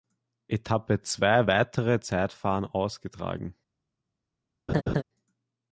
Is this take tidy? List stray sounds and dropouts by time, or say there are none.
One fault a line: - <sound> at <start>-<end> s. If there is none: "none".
- laugh at 4.7-5.0 s